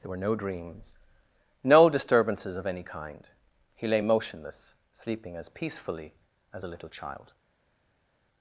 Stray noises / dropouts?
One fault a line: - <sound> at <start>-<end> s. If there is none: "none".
none